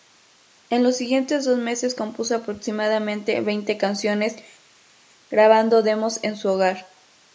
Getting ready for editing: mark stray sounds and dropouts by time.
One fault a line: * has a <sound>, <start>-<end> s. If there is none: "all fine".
all fine